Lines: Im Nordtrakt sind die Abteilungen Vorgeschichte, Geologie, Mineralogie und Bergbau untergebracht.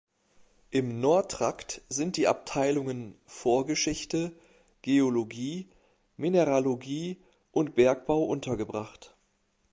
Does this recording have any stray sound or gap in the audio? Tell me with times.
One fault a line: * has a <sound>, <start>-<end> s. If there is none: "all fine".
all fine